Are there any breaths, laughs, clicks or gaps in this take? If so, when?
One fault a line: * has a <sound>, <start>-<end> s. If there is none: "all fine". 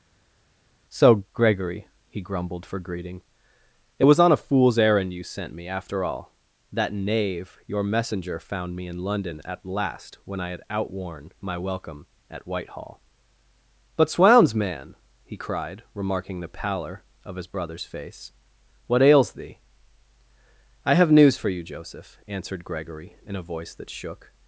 all fine